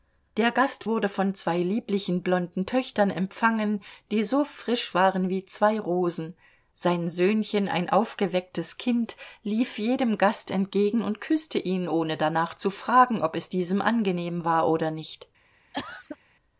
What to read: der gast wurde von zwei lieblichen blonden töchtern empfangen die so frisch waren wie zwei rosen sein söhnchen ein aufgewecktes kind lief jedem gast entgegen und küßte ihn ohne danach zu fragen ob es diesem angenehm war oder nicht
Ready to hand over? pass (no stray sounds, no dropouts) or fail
fail